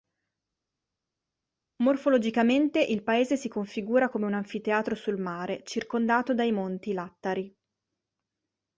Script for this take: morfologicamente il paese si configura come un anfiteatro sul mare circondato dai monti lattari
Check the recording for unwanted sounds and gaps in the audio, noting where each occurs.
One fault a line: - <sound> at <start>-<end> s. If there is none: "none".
none